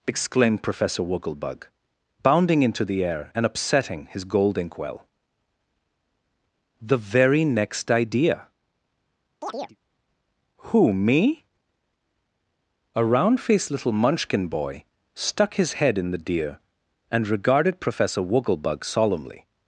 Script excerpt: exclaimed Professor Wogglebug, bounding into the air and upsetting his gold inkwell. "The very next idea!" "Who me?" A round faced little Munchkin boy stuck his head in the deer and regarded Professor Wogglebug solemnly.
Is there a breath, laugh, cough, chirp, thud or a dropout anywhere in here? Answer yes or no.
yes